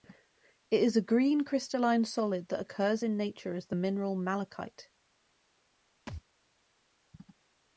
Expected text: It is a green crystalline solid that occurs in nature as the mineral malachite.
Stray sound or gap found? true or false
true